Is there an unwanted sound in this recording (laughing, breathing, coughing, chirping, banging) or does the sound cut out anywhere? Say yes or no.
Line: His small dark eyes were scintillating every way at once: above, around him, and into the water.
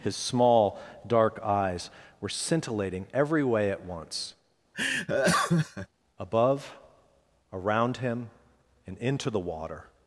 yes